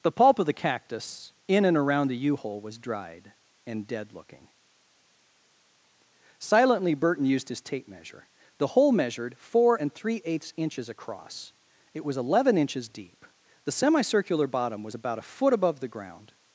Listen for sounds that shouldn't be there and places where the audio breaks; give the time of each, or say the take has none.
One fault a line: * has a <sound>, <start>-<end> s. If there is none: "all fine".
all fine